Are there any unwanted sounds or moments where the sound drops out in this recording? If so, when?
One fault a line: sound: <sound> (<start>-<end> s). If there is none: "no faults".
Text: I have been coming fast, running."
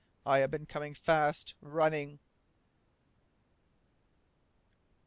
no faults